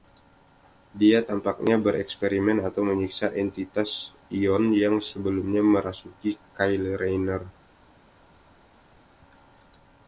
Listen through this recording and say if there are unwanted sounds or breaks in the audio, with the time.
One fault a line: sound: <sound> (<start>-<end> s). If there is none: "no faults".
no faults